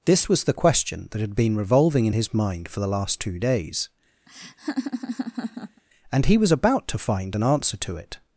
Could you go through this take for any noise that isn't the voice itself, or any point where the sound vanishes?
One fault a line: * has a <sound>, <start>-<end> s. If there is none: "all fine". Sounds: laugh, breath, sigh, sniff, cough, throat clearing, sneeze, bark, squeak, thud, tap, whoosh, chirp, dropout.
* has a laugh, 4.3-5.8 s